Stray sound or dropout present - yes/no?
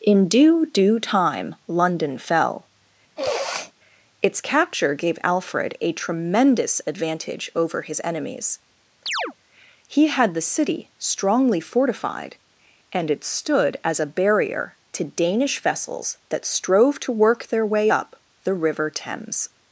yes